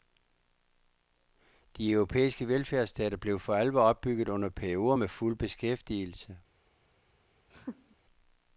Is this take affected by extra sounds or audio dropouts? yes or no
yes